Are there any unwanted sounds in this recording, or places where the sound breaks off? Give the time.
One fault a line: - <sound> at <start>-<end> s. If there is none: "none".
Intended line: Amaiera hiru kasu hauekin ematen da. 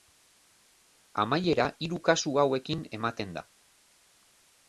none